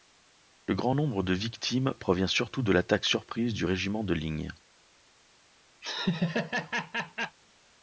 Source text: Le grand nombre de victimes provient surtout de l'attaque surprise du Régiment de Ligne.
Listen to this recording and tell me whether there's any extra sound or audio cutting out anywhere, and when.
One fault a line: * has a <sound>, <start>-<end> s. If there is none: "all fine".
* has a laugh, 5.8-7.4 s